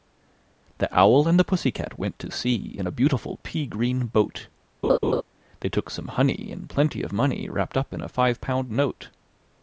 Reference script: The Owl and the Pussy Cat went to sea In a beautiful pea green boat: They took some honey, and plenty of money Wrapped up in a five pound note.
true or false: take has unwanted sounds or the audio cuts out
true